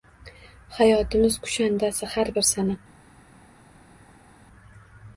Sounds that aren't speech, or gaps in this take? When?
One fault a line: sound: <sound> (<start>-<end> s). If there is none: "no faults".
no faults